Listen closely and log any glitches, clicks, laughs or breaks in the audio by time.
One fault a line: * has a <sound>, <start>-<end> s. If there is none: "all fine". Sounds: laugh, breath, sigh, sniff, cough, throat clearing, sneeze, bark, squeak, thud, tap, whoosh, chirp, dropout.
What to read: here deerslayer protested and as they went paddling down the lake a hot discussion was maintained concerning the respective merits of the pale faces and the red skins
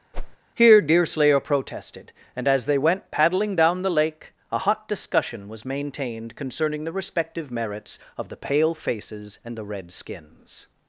* has a whoosh, 0.1-0.4 s